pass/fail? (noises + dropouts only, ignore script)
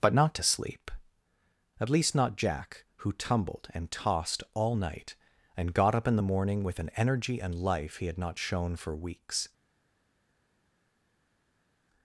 pass